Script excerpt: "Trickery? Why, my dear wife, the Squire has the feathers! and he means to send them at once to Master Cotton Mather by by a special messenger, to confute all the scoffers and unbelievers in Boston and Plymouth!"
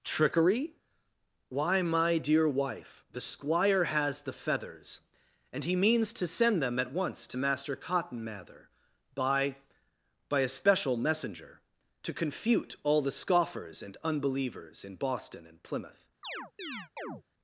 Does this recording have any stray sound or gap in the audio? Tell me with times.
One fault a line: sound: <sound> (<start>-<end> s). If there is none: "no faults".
sound: chirp (16.2-17.2 s)